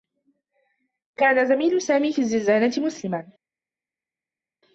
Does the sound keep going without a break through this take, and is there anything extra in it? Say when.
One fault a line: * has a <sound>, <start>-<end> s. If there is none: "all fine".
all fine